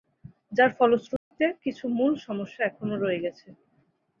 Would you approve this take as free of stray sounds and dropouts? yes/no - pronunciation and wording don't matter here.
no